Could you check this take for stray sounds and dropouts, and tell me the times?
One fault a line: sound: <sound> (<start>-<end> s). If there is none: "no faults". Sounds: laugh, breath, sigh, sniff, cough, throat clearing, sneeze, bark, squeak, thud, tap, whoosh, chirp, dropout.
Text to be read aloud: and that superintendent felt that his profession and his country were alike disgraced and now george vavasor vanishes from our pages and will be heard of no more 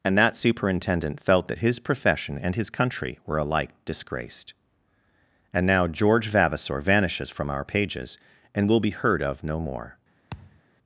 sound: thud (10.3-10.6 s)